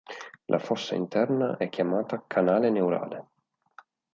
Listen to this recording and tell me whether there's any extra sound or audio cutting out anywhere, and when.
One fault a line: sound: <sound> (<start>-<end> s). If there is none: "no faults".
no faults